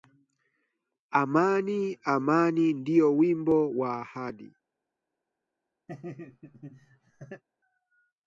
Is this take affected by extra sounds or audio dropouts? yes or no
yes